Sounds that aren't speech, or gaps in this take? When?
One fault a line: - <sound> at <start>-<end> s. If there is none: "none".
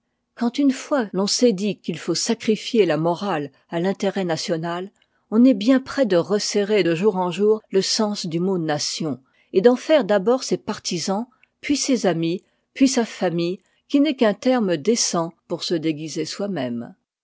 none